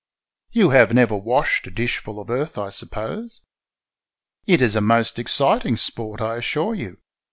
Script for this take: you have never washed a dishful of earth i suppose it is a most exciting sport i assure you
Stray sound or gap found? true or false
false